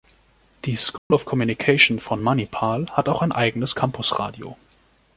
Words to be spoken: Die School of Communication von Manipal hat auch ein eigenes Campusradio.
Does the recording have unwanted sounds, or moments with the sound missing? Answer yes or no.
yes